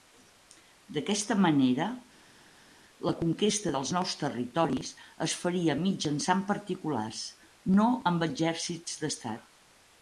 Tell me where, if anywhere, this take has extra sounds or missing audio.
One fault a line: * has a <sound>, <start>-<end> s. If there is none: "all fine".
all fine